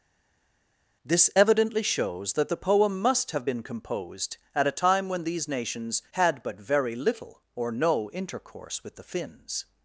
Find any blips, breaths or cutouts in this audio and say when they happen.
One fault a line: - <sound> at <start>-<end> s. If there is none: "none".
none